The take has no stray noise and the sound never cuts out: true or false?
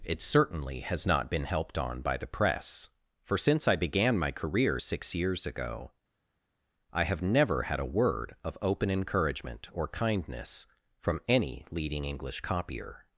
true